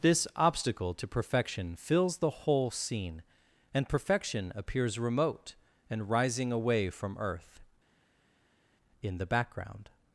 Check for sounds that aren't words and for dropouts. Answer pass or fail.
pass